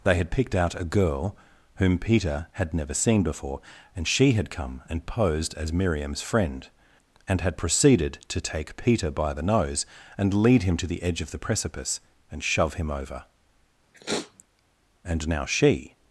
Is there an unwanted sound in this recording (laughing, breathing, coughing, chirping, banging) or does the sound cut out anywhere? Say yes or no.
yes